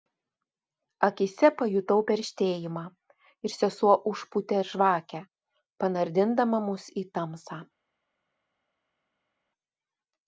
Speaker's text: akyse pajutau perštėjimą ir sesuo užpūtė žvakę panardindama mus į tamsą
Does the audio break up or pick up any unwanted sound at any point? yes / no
no